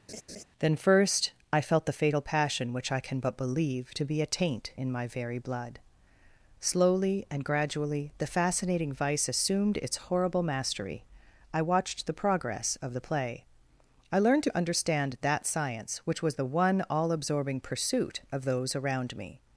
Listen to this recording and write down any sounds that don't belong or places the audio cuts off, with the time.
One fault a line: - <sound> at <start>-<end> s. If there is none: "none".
- laugh at 0.1-0.4 s